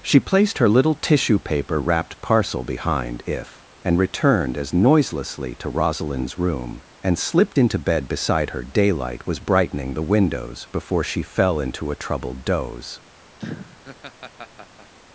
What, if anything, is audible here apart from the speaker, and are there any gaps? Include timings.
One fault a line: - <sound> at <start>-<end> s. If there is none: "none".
- laugh at 13.4-14.9 s